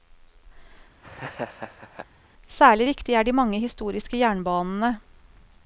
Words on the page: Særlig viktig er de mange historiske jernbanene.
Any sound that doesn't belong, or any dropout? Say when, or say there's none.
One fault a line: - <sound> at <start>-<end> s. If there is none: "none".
- laugh at 1.0-2.1 s